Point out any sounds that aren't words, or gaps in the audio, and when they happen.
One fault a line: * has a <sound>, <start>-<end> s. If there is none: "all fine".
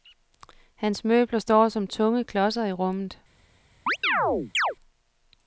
* has a chirp, 3.9-4.8 s